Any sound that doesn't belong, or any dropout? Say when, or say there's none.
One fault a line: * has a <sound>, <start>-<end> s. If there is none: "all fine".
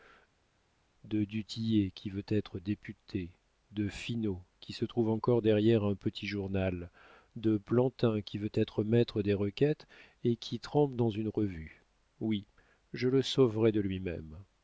all fine